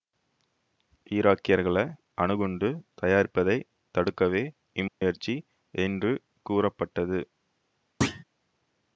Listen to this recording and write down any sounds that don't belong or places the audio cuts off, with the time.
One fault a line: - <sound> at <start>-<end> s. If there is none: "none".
- dropout at 4.9-5.0 s
- thud at 8.0-8.2 s